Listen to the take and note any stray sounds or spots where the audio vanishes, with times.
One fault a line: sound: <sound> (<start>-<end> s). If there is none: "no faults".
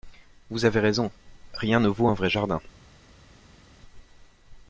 no faults